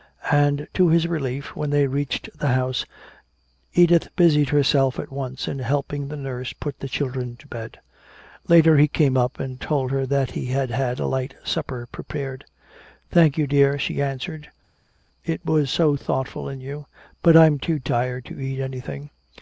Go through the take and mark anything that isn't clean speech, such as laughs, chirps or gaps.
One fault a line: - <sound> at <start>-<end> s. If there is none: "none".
none